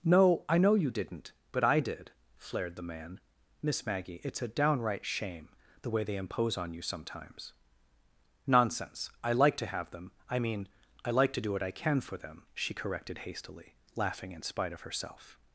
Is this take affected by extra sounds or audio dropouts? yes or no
no